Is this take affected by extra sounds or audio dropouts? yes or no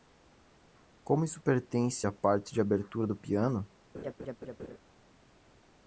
yes